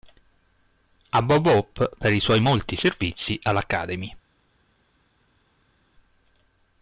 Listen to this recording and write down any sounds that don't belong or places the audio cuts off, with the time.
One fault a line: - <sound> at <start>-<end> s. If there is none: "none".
none